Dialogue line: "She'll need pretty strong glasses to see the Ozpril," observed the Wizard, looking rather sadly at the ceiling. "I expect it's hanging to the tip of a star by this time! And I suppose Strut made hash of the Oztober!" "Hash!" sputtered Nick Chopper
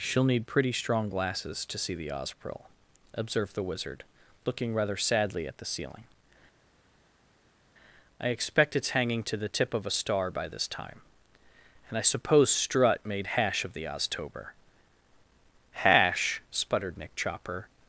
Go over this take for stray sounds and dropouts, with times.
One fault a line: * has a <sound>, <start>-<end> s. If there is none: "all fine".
all fine